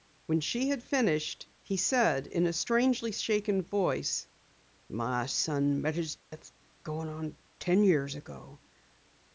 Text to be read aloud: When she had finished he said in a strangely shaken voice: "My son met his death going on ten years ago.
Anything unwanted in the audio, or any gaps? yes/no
yes